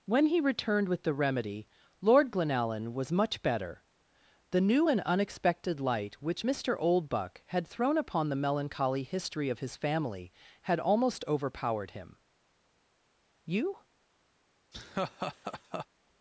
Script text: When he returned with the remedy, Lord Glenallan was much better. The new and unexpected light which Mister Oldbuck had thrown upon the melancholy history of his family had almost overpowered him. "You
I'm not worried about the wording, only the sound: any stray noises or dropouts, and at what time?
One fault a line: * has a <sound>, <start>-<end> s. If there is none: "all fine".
* has a laugh, 14.7-15.9 s